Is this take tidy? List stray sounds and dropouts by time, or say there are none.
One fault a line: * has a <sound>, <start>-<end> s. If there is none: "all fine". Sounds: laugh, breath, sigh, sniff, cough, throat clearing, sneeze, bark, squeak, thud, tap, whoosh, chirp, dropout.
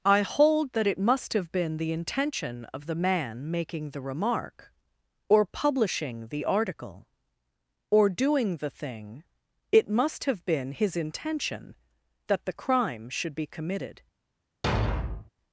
* has a thud, 14.6-15.3 s